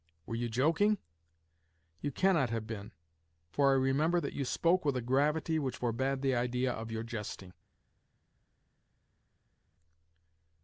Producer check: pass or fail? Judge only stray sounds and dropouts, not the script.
pass